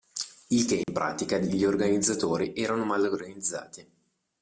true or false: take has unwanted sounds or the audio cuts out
true